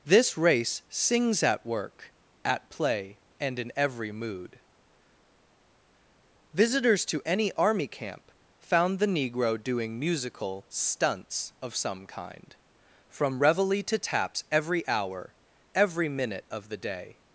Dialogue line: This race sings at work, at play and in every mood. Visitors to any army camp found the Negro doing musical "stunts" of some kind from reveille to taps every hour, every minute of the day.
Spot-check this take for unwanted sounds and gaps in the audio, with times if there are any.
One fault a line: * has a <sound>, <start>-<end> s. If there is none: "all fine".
all fine